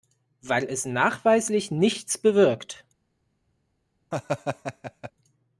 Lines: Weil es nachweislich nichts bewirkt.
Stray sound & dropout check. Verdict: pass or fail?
fail